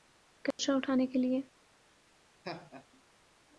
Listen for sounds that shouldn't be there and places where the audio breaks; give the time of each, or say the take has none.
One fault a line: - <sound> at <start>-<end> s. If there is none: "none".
- dropout at 0.5-0.6 s
- laugh at 2.4-2.9 s